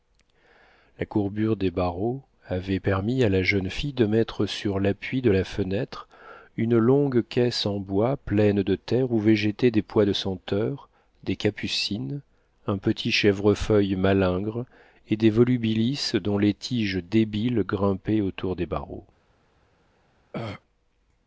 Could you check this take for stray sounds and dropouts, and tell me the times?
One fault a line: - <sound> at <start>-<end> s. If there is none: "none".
- throat clearing at 20.3-20.6 s